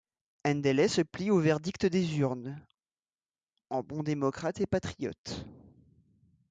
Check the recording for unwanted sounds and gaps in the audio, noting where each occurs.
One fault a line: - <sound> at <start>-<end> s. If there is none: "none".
none